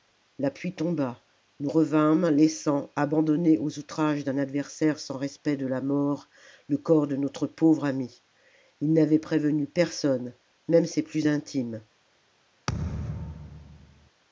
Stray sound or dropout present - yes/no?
yes